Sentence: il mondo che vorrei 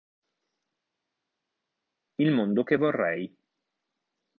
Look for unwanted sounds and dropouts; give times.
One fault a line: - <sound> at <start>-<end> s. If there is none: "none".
none